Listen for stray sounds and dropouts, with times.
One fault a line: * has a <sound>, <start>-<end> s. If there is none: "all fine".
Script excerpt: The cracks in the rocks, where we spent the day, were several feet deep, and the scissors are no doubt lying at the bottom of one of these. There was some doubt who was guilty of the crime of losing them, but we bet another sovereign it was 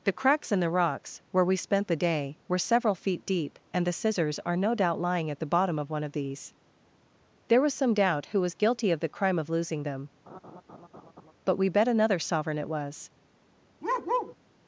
* has a laugh, 10.3-11.3 s
* has a bark, 13.8-14.4 s